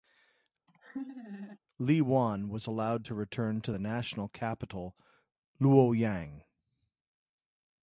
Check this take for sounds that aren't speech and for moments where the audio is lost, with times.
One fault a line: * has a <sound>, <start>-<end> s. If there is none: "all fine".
* has a laugh, 0.7-1.6 s